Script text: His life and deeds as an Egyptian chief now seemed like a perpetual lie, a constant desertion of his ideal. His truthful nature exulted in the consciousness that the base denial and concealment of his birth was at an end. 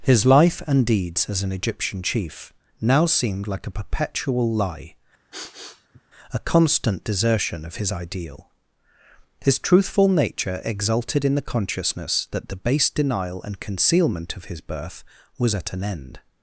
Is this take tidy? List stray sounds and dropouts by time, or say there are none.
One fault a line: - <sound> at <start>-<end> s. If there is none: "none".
- sniff at 5.3-6.0 s